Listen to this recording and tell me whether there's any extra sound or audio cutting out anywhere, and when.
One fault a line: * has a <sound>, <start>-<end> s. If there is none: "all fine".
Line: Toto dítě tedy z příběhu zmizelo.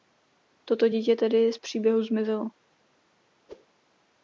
* has a whoosh, 3.5-3.7 s